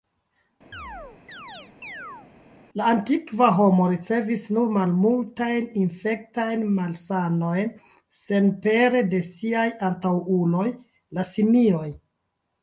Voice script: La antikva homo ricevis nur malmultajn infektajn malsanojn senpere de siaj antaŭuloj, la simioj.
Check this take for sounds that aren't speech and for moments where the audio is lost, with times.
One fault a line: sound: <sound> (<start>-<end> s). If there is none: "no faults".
sound: chirp (0.7-2.3 s)